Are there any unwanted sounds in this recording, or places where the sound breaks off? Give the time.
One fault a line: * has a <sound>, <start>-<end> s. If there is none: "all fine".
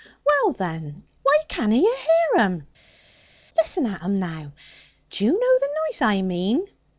all fine